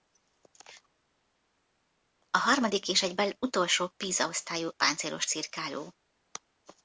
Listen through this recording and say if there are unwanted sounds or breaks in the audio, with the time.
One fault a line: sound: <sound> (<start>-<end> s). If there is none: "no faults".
no faults